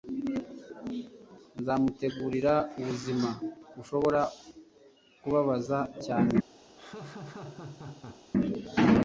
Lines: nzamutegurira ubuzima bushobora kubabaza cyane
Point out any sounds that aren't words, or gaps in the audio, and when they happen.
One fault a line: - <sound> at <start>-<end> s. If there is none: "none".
- laugh at 6.8-8.3 s